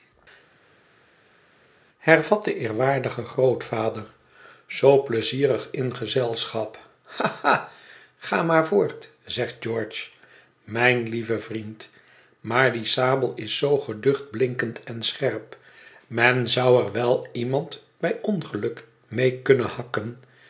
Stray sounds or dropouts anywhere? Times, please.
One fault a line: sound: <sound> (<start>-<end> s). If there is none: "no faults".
no faults